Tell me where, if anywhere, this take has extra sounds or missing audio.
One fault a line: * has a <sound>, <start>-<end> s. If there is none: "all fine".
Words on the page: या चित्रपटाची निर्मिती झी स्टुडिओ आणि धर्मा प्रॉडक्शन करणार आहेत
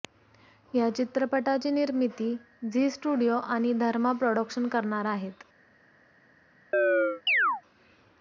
* has a chirp, 6.7-7.6 s